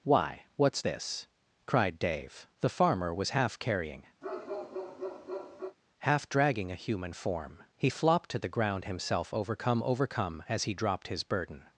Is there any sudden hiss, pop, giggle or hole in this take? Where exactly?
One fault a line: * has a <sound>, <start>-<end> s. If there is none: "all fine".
* has a bark, 4.2-5.8 s